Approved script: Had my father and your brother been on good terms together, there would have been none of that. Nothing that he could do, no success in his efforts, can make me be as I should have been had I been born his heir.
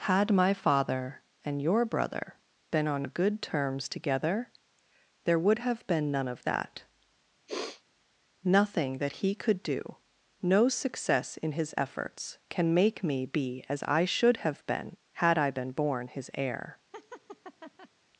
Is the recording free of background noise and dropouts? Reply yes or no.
no